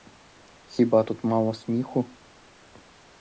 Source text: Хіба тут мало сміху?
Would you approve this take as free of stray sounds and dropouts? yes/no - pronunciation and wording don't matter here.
yes